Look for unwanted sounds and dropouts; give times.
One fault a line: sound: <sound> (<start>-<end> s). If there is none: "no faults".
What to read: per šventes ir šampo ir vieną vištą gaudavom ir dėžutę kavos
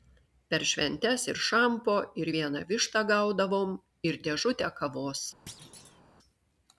sound: thud (5.5-6.0 s)